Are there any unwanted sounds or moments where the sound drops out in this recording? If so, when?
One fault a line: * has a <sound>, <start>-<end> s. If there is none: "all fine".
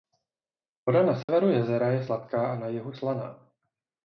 * has a dropout, 1.2-1.3 s